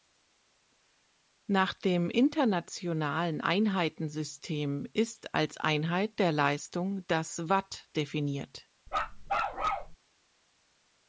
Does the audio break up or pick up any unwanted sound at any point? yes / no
yes